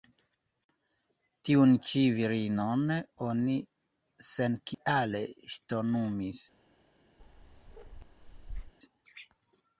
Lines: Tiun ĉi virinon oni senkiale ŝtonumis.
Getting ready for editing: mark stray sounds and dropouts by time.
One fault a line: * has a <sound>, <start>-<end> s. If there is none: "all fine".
* has a dropout, 4.7-4.8 s
* has a bark, 7.2-8.7 s